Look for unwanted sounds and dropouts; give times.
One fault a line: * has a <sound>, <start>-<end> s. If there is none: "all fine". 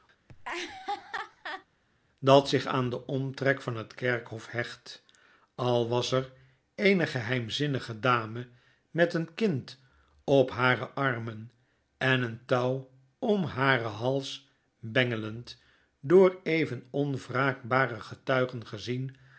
* has a laugh, 0.3-1.7 s